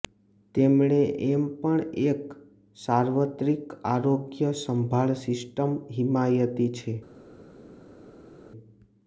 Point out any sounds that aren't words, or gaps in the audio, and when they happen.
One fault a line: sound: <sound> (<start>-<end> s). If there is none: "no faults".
no faults